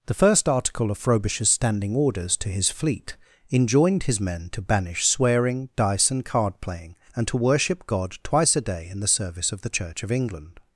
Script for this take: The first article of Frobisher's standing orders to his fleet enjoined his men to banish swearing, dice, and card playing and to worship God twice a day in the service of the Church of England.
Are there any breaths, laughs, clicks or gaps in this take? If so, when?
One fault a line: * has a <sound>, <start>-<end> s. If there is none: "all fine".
all fine